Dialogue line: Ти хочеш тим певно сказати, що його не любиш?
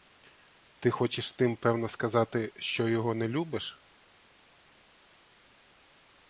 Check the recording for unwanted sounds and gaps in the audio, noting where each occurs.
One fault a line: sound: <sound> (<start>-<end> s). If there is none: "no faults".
no faults